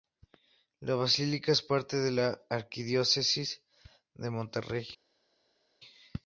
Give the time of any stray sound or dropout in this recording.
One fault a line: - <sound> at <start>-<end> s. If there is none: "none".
none